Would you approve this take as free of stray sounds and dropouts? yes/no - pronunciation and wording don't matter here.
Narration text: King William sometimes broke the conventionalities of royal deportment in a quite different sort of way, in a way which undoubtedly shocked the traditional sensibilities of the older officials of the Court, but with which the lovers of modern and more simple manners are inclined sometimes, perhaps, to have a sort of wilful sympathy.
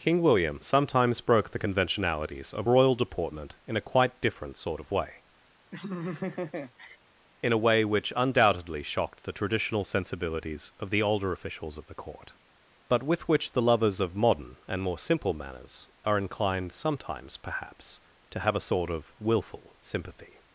no